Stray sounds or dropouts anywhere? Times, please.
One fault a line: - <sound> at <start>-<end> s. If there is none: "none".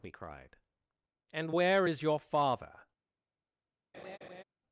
- laugh at 3.9-4.4 s